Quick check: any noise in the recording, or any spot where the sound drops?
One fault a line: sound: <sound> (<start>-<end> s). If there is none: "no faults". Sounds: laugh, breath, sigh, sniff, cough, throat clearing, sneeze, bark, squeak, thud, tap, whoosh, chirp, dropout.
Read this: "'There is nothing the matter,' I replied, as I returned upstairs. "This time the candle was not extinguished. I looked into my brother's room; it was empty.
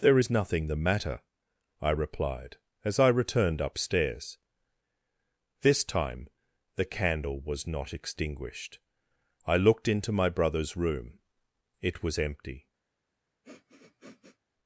sound: sniff (13.4-14.4 s)